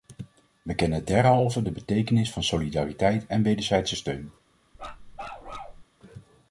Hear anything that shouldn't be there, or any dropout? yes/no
yes